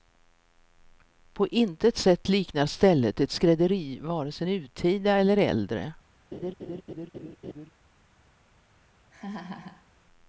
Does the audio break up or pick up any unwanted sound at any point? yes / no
yes